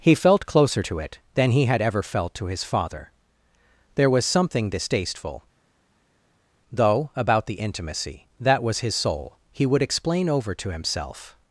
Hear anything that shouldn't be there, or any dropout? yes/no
no